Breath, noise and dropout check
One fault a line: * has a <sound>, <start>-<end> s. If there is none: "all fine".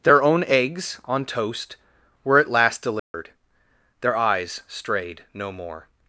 * has a dropout, 3.0-3.1 s